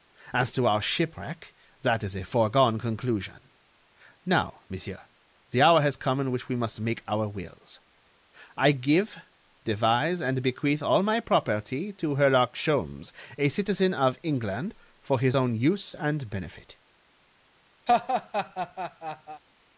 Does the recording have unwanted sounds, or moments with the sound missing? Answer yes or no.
yes